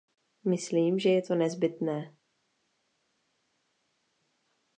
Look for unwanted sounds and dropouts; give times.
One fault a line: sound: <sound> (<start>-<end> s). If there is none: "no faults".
no faults